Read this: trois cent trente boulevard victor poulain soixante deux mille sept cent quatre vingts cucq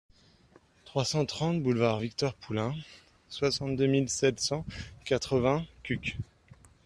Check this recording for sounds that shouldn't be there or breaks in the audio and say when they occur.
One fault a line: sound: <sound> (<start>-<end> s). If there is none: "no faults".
no faults